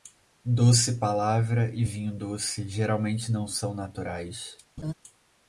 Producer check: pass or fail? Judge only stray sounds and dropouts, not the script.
fail